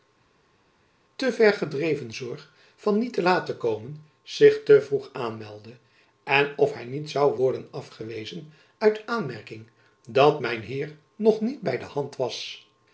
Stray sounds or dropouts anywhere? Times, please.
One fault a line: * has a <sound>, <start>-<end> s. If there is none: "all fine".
all fine